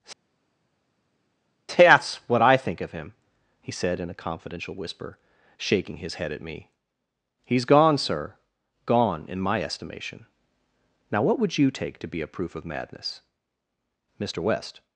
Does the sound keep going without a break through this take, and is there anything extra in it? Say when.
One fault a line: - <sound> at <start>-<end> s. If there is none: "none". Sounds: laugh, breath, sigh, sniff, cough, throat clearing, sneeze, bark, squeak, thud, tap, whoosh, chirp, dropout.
none